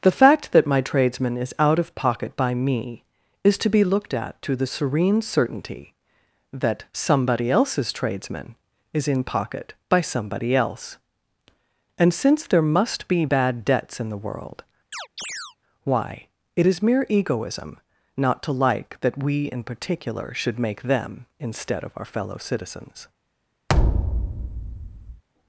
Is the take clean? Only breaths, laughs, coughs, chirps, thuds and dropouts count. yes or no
no